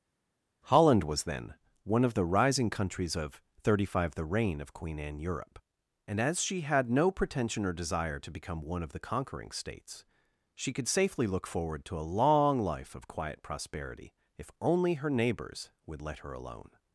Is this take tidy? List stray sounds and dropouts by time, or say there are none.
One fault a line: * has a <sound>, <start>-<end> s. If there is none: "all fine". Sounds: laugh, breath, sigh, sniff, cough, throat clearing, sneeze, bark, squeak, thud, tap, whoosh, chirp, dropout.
all fine